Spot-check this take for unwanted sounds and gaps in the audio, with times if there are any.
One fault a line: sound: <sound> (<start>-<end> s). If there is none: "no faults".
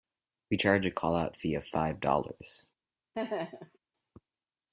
sound: laugh (3.1-3.8 s)